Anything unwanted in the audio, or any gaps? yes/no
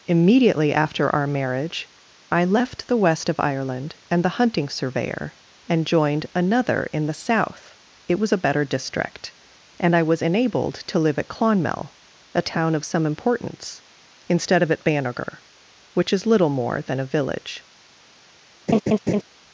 yes